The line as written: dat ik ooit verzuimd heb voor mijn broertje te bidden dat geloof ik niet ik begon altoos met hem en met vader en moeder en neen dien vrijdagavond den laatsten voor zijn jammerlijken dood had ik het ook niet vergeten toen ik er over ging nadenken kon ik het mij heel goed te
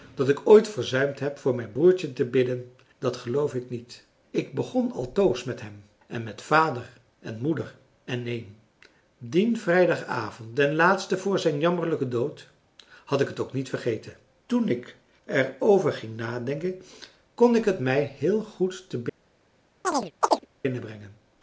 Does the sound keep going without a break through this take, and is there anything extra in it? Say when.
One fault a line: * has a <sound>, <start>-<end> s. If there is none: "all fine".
* has a chirp, 19.8-20.5 s